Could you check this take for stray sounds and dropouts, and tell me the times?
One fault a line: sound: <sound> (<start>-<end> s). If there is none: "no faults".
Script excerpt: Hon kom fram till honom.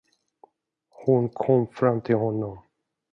no faults